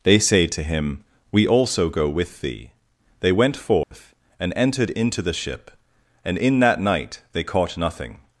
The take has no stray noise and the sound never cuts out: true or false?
false